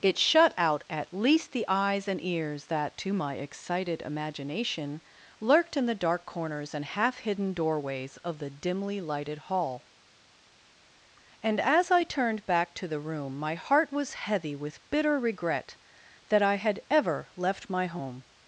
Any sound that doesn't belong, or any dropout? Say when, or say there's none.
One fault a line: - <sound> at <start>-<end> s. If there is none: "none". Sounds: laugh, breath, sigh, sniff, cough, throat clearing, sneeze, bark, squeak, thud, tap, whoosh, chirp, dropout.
none